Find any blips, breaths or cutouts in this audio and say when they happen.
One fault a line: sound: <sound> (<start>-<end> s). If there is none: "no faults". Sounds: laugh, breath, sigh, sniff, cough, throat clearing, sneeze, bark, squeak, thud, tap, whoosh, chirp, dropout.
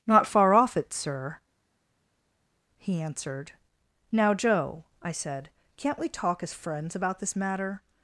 no faults